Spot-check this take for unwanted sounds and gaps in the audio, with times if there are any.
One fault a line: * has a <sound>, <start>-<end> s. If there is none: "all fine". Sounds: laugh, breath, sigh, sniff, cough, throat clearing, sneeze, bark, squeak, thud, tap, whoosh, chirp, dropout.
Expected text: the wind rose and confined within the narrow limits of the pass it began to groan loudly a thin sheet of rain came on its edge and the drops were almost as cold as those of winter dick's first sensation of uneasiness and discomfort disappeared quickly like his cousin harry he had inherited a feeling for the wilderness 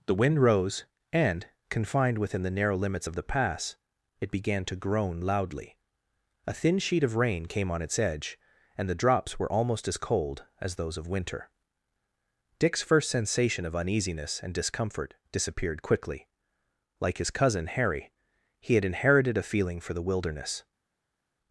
all fine